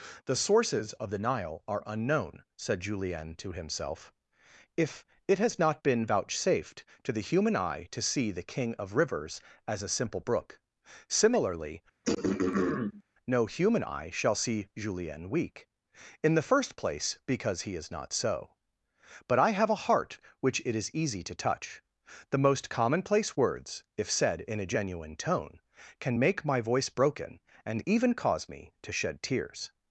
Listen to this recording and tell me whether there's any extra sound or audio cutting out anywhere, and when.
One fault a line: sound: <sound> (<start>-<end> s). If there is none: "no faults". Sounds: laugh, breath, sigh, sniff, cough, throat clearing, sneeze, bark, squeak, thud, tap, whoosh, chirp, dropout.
sound: throat clearing (12.0-13.0 s)